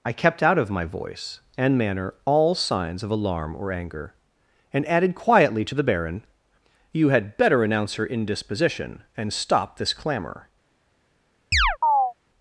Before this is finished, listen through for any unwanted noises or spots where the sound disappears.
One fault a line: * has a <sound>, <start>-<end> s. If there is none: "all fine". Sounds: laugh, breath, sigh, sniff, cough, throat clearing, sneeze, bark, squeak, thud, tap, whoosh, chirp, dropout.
* has a chirp, 11.5-12.1 s